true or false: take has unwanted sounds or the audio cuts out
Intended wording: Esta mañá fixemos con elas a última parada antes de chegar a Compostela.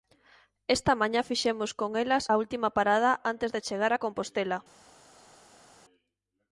false